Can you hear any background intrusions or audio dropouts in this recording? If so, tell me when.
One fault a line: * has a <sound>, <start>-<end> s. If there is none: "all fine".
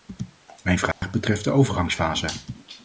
* has a dropout, 0.9-1.0 s